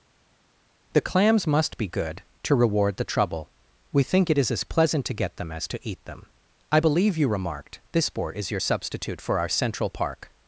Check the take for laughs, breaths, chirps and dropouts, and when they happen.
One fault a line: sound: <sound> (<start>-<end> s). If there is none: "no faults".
no faults